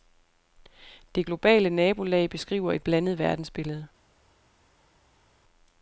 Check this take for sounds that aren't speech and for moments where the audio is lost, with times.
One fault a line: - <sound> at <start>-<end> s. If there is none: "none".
none